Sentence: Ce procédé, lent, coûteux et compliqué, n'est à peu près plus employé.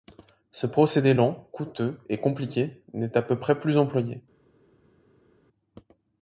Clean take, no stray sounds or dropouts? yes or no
yes